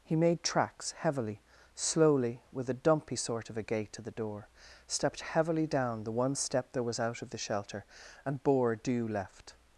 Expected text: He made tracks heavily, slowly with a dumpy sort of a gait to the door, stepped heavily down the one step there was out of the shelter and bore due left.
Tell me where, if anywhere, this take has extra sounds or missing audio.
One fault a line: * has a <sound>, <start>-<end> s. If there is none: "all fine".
all fine